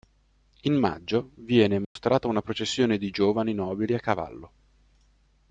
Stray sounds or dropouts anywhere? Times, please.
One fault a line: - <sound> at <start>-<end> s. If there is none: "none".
- dropout at 1.8-2.0 s